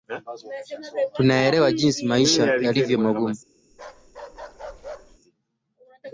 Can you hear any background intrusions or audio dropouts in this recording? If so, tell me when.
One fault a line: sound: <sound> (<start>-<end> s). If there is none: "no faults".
sound: bark (3.7-5.2 s)